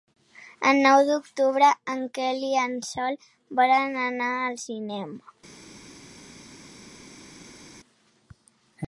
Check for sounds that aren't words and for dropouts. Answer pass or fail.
pass